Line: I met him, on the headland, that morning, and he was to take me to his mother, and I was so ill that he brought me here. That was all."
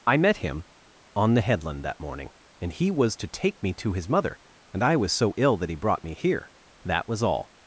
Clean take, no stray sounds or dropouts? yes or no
yes